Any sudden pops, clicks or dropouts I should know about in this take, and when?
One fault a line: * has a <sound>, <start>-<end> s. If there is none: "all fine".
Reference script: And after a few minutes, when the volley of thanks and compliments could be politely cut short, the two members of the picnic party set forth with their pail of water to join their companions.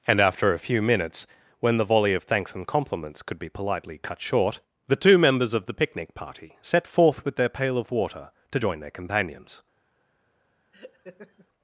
* has a laugh, 10.7-11.5 s